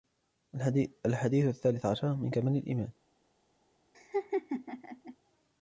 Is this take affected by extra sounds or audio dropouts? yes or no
yes